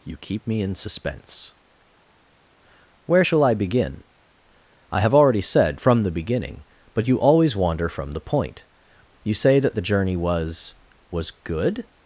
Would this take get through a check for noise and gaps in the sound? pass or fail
pass